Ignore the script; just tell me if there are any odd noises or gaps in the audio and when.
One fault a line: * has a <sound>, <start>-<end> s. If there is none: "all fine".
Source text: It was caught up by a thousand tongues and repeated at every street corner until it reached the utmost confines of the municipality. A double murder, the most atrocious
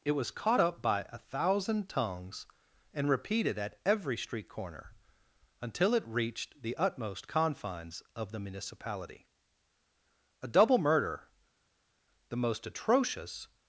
all fine